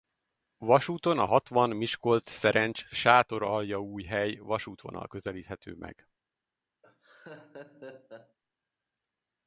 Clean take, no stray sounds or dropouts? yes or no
no